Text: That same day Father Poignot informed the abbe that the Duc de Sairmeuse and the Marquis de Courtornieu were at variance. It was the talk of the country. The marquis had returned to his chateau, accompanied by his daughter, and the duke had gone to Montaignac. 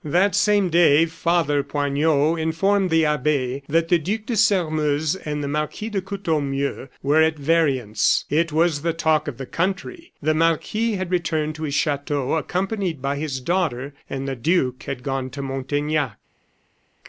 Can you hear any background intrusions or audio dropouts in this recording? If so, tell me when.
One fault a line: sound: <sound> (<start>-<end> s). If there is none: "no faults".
no faults